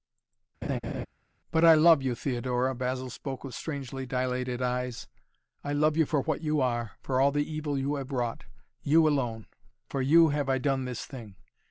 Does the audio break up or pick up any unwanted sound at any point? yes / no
yes